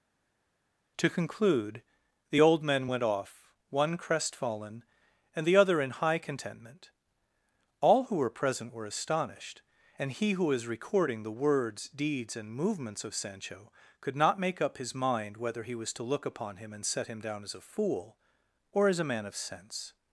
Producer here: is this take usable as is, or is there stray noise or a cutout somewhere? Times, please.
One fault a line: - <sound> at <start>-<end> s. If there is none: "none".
none